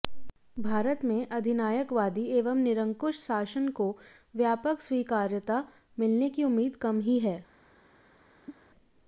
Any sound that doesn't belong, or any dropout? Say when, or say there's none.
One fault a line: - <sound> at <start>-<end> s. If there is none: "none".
- cough at 8.5-8.7 s